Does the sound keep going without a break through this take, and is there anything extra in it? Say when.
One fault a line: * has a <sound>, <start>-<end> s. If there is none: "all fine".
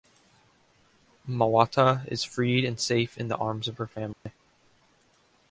* has a dropout, 4.1-4.3 s